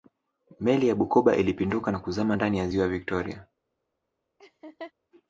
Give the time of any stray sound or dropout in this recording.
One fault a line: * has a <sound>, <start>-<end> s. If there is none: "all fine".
* has a laugh, 4.4-4.9 s